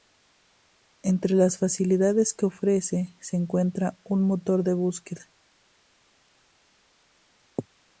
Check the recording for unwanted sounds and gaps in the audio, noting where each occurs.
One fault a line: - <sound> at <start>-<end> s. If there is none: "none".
none